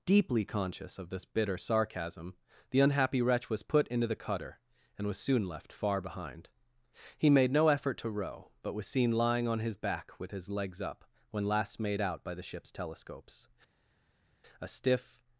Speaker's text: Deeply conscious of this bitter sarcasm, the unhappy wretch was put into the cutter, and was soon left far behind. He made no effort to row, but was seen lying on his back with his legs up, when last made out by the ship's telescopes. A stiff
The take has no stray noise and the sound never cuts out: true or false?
true